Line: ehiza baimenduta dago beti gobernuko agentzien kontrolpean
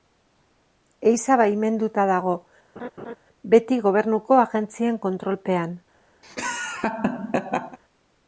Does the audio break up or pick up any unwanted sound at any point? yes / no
yes